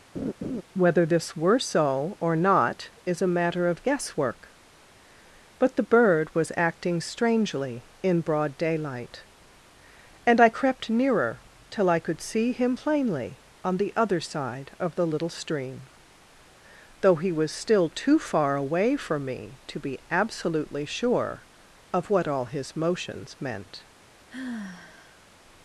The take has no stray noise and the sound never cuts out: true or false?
false